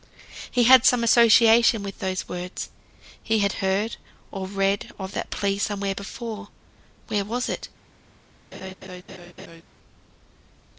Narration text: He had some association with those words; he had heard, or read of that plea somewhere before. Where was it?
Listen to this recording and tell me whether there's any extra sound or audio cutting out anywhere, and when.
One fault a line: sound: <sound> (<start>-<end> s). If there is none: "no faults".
sound: laugh (8.5-9.6 s)